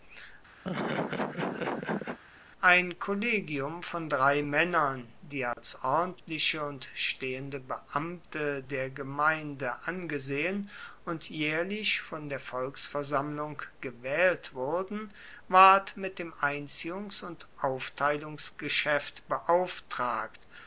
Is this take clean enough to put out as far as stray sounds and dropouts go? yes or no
no